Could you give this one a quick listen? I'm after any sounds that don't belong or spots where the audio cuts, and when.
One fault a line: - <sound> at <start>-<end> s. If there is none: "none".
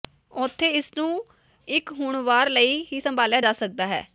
none